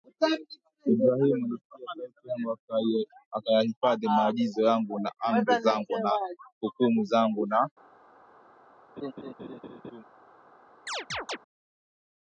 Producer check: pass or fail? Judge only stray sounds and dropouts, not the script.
fail